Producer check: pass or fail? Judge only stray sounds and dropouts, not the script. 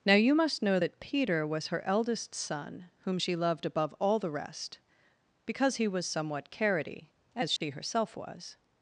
fail